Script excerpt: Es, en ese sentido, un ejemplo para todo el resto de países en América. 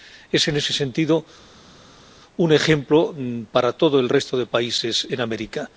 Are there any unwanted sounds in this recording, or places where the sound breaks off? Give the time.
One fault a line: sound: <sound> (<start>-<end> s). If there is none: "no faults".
no faults